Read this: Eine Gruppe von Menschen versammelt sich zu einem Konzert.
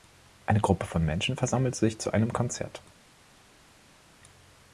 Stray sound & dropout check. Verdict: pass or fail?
pass